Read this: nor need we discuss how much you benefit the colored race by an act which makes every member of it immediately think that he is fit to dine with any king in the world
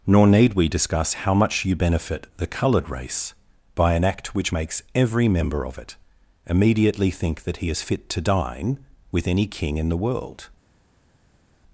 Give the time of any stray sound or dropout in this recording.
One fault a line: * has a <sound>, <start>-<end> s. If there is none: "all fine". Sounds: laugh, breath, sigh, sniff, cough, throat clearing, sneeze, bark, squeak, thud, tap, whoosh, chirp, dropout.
all fine